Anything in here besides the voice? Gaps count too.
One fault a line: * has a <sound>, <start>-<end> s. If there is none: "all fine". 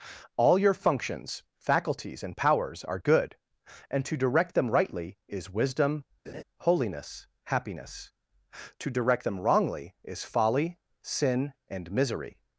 * has a laugh, 6.3-6.4 s